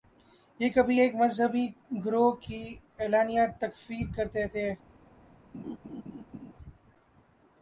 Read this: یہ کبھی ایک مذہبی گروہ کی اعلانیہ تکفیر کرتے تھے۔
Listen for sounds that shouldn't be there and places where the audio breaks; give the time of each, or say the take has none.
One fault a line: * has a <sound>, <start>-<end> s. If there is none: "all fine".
* has a laugh, 5.5-6.5 s